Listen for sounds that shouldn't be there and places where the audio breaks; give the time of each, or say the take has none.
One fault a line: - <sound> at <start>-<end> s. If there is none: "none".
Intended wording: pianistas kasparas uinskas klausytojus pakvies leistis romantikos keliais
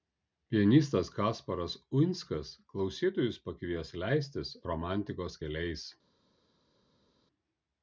none